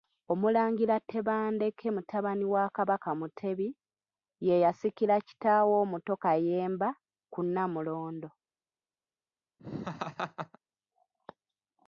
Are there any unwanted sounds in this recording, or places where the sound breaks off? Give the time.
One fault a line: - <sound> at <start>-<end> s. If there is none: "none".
- laugh at 9.6-10.6 s